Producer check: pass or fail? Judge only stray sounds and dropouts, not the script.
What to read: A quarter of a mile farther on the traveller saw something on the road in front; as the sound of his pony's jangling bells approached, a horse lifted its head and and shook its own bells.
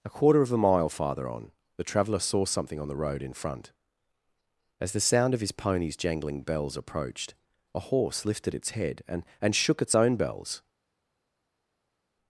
pass